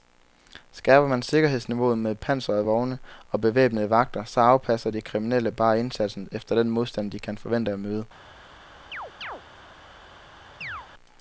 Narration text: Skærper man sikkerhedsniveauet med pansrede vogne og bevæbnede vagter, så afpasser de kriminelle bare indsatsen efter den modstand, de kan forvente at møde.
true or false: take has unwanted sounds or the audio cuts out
true